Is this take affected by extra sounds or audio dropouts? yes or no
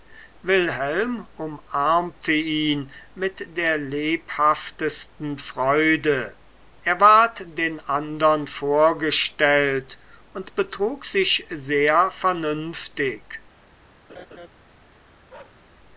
yes